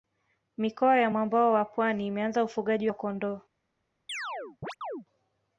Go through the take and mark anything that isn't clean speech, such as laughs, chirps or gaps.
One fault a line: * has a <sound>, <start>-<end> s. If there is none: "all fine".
* has a chirp, 4.1-5.1 s